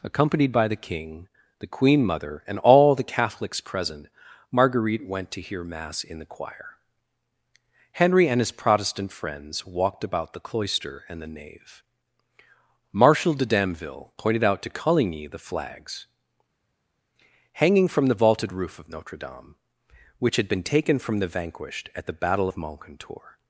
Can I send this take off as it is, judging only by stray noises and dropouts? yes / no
yes